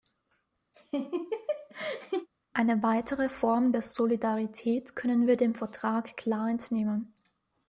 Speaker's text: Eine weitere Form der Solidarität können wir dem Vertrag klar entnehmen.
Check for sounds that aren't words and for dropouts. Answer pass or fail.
fail